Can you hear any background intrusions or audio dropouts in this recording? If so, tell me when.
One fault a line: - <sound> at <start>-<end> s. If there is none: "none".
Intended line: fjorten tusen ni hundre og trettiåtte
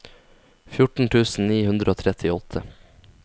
none